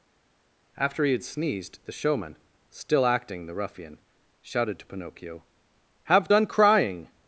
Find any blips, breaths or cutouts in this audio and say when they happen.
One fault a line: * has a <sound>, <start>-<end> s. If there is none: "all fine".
all fine